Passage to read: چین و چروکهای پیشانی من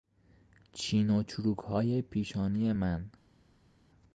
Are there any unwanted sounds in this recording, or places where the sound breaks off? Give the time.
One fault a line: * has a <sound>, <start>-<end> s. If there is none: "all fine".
all fine